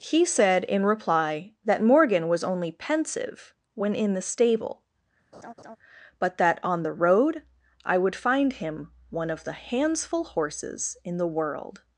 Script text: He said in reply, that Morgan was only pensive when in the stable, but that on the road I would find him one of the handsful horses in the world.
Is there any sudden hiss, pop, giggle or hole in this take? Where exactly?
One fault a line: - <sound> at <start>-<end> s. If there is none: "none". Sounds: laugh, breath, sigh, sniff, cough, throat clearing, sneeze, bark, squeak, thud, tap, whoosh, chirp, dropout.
- laugh at 5.3-5.8 s